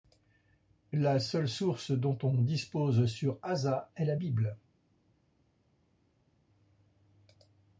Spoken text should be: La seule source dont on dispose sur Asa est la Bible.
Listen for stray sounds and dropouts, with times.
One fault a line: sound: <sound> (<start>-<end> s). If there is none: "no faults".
no faults